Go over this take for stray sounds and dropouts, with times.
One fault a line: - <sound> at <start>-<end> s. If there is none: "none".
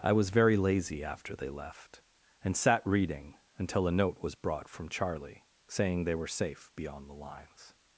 none